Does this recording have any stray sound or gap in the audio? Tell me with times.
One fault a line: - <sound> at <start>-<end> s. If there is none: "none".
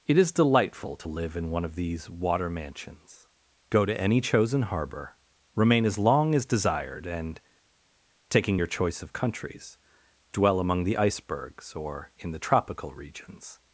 none